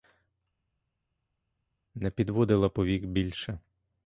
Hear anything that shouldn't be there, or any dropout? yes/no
no